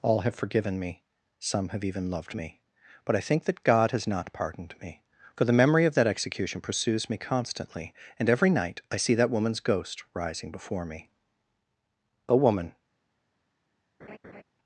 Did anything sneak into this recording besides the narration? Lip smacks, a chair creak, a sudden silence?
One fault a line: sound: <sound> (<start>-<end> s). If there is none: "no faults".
sound: laugh (14.0-14.4 s)